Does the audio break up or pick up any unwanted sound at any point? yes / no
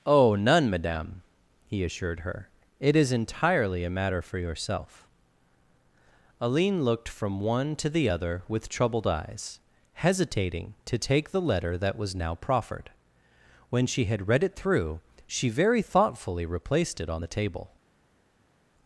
no